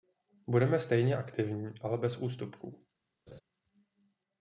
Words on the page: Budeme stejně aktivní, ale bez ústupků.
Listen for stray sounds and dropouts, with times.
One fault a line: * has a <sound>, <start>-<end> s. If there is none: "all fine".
* has a laugh, 3.3-3.4 s